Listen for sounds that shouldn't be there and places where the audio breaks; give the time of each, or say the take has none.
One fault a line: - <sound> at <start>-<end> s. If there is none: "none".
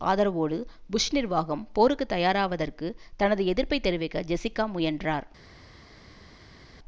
none